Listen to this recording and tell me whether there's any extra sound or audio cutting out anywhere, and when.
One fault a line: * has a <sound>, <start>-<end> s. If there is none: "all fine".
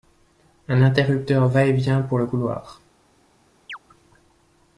* has a chirp, 3.7-3.8 s